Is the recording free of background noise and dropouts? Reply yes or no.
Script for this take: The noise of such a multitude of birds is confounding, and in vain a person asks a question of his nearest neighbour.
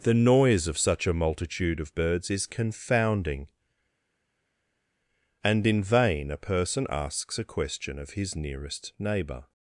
yes